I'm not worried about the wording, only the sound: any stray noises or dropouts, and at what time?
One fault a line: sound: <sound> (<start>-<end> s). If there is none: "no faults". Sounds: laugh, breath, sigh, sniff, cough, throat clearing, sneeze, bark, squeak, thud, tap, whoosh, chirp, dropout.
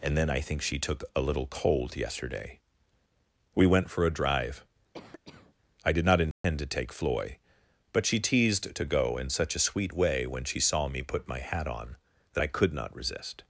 sound: cough (4.9-5.5 s)
sound: dropout (6.3-6.4 s)